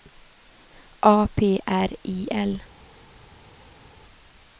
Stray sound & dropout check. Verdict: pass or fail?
pass